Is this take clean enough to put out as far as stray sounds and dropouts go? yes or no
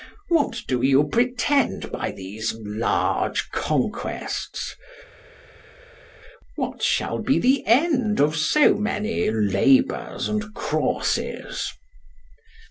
yes